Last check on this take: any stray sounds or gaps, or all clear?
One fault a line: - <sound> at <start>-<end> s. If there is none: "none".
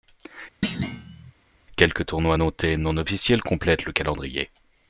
- thud at 0.6-1.3 s